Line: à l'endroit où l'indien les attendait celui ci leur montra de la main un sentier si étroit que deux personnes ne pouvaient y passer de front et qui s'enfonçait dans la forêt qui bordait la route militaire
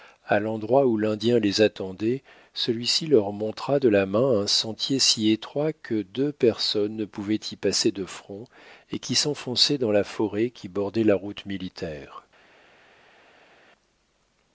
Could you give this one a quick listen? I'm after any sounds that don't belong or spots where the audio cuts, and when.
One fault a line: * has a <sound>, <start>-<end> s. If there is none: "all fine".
all fine